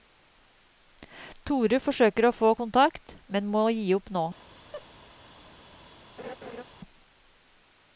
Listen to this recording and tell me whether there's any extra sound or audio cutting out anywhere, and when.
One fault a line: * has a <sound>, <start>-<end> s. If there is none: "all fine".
* has a laugh, 4.7-4.9 s
* has a laugh, 6.2-6.6 s